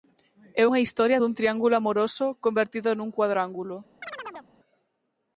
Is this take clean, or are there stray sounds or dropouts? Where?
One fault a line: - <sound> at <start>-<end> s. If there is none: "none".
- chirp at 4.0-4.5 s